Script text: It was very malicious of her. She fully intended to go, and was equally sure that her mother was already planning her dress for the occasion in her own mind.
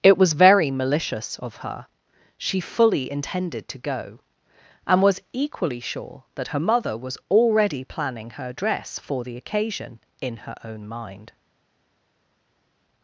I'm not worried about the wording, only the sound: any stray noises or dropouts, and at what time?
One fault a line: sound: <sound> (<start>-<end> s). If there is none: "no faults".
no faults